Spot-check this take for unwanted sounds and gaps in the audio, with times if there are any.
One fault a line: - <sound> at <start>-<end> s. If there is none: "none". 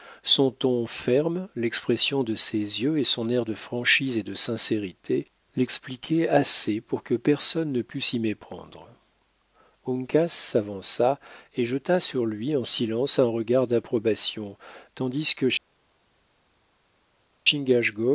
none